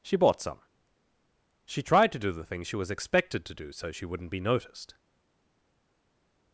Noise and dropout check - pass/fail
pass